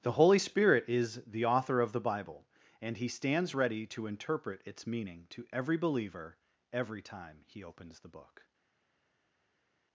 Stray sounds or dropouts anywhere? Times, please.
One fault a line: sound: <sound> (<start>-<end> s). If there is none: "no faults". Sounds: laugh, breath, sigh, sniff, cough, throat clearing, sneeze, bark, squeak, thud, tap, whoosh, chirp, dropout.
no faults